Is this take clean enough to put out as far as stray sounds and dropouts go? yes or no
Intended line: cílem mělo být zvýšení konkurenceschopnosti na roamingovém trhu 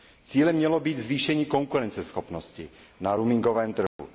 no